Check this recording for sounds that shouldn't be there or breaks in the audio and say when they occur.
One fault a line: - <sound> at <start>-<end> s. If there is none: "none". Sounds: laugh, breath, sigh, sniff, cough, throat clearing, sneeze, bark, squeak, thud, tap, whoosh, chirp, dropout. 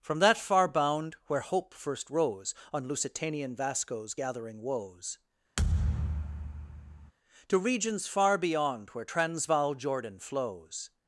- thud at 5.6-7.1 s